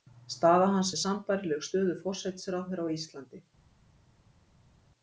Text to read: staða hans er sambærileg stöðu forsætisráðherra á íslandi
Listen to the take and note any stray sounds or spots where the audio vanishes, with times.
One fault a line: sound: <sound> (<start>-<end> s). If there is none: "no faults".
no faults